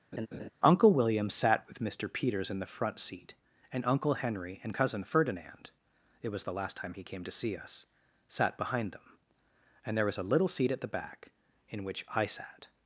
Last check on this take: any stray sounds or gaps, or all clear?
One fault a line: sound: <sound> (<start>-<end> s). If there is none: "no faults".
sound: laugh (0.1-0.5 s)